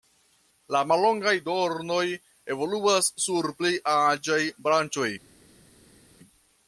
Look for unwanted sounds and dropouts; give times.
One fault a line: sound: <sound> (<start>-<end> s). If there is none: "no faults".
no faults